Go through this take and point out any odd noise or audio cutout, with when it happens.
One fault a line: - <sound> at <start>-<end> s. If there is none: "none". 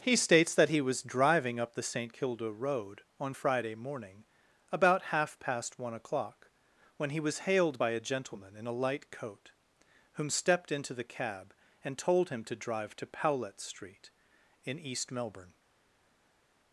none